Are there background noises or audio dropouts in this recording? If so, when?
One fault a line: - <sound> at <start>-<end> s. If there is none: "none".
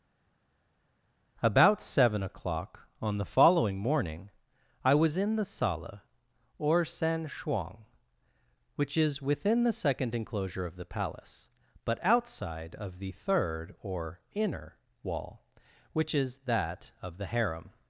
none